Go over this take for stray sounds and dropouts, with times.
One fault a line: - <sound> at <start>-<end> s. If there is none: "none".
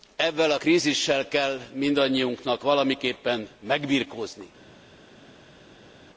none